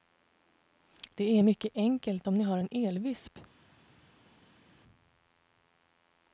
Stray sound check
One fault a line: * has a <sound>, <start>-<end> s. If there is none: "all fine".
all fine